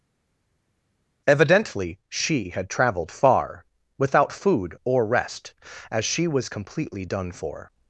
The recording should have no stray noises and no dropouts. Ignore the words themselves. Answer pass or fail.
pass